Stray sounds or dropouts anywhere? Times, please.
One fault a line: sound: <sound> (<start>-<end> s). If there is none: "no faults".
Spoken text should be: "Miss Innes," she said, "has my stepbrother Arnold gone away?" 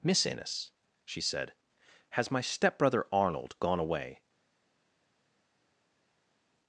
no faults